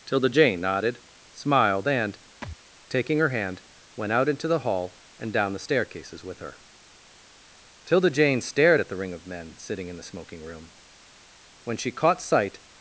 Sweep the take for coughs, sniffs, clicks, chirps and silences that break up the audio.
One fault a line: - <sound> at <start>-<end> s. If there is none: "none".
- thud at 2.4-2.6 s